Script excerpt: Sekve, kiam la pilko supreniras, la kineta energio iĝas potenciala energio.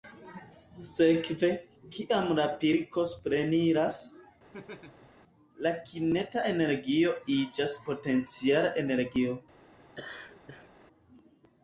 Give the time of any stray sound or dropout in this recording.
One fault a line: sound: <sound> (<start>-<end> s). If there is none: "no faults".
sound: laugh (4.5-5.1 s)
sound: laugh (9.9-10.7 s)